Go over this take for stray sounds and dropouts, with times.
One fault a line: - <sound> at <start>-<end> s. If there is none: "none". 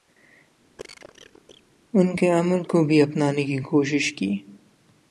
- cough at 0.8-1.6 s